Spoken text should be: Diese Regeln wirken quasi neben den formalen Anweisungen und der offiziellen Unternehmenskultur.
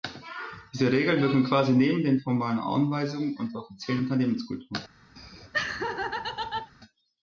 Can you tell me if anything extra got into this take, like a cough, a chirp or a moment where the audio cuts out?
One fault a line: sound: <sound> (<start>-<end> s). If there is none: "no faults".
sound: laugh (5.2-6.7 s)